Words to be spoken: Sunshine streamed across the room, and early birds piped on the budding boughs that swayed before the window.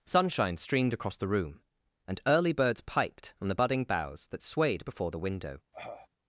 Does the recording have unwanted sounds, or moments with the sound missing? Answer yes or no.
yes